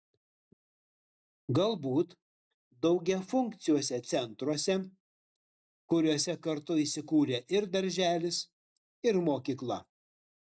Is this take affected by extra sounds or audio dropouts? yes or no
no